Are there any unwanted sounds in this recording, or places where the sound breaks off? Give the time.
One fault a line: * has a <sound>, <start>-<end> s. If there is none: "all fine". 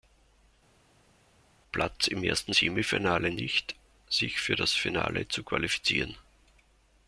all fine